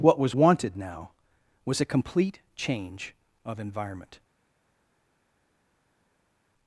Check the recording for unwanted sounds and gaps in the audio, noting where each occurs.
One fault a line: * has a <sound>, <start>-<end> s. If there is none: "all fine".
all fine